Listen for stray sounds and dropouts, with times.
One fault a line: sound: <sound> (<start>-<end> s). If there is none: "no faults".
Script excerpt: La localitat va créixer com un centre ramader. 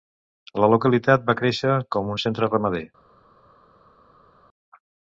no faults